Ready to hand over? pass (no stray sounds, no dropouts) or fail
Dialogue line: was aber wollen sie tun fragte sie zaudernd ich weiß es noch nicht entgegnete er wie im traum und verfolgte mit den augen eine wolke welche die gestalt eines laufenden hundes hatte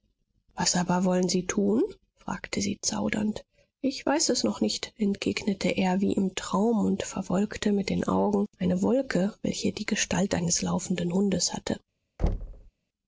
fail